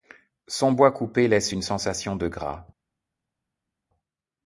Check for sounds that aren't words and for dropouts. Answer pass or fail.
pass